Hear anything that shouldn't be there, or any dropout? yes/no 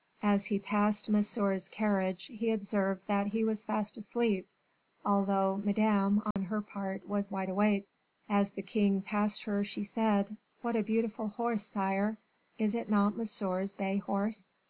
yes